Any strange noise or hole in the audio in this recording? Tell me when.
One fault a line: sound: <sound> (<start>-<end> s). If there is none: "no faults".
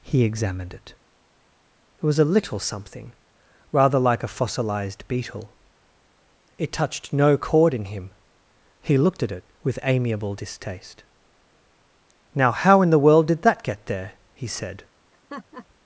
sound: laugh (15.1-15.7 s)